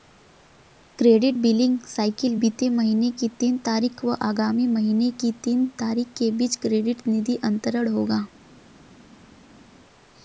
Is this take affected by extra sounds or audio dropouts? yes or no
no